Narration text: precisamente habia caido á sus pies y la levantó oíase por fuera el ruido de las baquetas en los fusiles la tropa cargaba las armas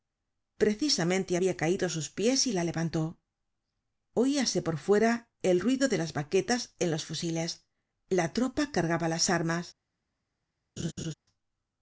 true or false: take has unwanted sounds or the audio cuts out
true